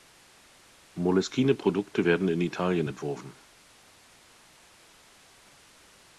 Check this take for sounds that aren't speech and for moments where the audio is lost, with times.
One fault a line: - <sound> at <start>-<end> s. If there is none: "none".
none